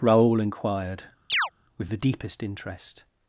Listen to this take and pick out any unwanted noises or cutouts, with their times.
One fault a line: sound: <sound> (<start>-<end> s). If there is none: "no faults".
sound: chirp (1.3-1.5 s)